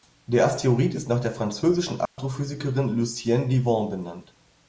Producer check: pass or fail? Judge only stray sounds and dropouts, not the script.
fail